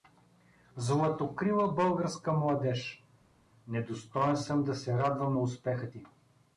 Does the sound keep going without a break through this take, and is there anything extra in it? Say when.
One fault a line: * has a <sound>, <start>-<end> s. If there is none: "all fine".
all fine